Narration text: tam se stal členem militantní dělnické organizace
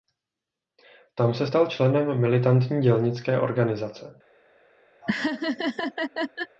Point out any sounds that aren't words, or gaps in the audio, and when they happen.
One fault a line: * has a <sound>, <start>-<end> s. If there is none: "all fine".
* has a laugh, 5.0-6.6 s